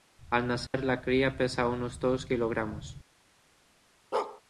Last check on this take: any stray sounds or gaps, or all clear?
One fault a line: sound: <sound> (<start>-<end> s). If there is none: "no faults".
sound: dropout (0.7-0.7 s)
sound: bark (4.1-4.4 s)